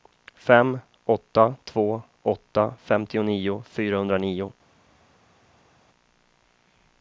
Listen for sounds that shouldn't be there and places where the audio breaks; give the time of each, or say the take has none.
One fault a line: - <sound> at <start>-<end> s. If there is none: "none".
none